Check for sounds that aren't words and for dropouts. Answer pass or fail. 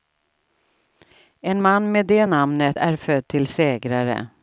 pass